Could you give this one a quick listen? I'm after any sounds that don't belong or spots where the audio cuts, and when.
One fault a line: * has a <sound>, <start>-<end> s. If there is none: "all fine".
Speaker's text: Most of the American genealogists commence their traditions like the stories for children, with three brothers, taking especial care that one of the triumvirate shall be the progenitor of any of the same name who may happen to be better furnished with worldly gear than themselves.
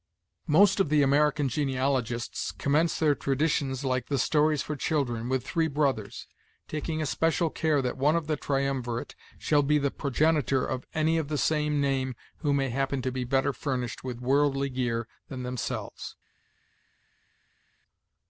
all fine